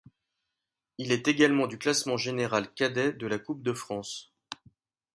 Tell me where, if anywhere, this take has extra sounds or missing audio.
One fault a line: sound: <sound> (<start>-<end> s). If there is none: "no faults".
no faults